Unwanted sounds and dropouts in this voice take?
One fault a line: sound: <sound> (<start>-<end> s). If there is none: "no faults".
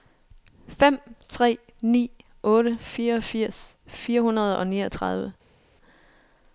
no faults